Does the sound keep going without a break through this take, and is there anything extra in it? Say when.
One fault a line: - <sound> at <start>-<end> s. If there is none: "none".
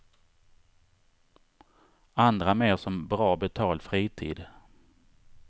none